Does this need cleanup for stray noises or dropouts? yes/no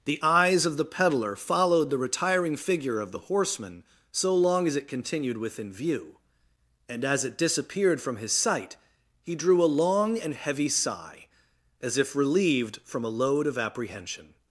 no